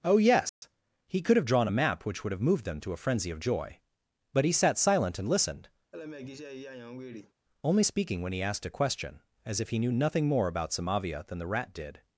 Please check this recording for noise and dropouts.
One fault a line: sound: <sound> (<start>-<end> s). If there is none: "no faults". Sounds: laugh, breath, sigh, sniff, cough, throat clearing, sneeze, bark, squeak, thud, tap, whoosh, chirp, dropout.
sound: dropout (0.5-0.6 s)
sound: laugh (5.9-7.3 s)